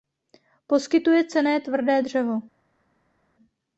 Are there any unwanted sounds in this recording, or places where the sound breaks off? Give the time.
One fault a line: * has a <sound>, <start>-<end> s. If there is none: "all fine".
all fine